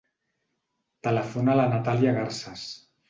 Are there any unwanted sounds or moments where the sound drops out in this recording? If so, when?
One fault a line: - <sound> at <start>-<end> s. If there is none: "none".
none